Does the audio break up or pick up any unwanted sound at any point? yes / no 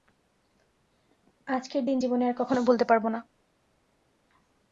no